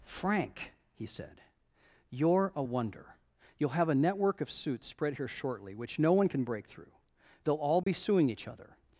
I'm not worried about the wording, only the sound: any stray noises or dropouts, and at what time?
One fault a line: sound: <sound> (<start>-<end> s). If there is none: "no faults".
sound: dropout (7.8-7.9 s)